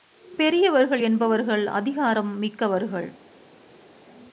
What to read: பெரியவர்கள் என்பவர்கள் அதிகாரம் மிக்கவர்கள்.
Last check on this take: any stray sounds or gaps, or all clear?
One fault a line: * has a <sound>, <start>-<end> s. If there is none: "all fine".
all fine